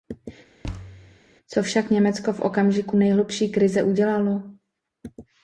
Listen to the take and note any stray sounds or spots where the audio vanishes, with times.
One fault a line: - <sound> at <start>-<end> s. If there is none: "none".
- thud at 0.6-1.2 s